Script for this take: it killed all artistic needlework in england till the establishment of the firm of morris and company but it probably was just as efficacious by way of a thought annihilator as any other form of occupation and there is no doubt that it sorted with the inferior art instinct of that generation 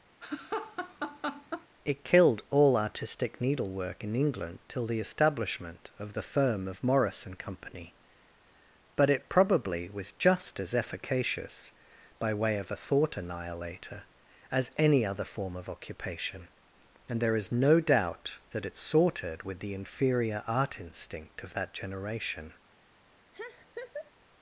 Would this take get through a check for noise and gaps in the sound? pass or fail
fail